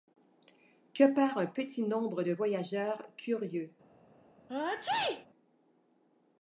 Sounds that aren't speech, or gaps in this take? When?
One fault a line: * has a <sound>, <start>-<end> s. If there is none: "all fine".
* has a sneeze, 4.5-5.3 s